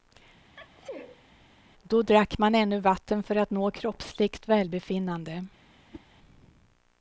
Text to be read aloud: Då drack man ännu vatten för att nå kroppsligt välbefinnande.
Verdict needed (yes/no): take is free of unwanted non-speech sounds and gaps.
no